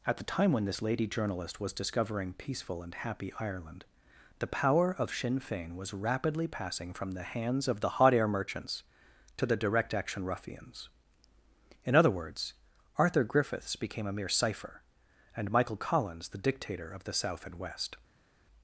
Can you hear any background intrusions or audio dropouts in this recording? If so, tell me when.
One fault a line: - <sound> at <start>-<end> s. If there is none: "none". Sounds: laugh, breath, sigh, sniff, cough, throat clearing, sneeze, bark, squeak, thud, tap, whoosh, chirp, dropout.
none